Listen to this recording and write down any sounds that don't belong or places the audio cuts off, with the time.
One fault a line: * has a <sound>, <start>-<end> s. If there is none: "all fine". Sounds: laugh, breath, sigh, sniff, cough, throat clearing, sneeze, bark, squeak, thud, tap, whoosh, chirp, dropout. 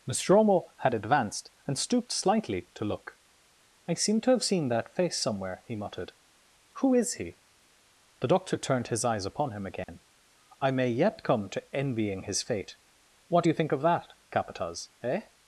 * has a dropout, 9.8-9.9 s